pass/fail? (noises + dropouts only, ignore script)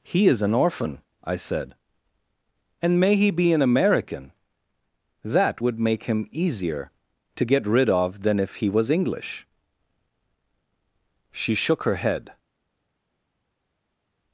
pass